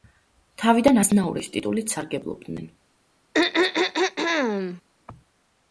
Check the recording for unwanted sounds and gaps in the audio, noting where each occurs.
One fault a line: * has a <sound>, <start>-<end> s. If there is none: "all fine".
* has a throat clearing, 3.3-4.8 s